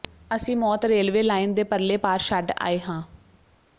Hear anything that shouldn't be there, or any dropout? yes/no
no